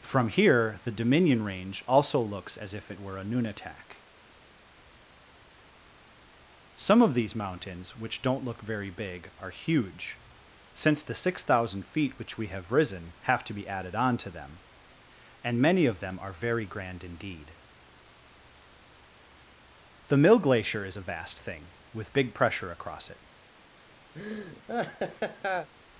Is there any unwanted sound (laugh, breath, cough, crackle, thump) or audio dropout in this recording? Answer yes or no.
yes